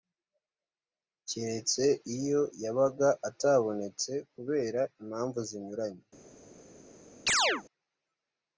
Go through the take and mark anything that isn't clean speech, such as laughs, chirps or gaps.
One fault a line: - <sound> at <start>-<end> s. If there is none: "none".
- chirp at 7.3-7.6 s